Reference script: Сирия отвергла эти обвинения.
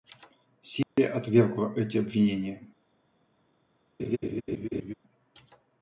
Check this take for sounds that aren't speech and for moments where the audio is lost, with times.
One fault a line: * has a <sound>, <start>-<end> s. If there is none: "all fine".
* has a dropout, 0.8-1.0 s
* has a laugh, 4.0-4.9 s